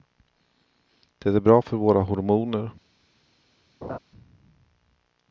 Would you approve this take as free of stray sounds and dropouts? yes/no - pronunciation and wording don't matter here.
no